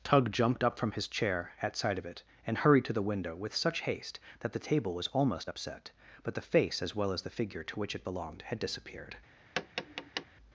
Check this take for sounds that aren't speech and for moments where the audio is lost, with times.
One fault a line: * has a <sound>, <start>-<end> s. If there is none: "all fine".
* has a tap, 9.6-10.3 s